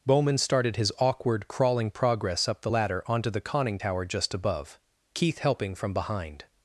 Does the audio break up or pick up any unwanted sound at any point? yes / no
no